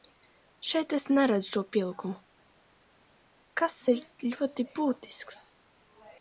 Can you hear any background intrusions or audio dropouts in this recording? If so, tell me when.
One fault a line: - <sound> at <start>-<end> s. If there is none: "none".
none